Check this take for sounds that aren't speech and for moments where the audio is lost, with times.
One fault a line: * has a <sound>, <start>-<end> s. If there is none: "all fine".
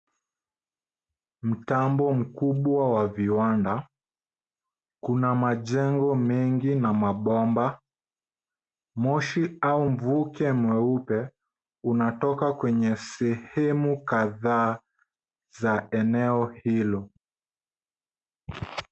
all fine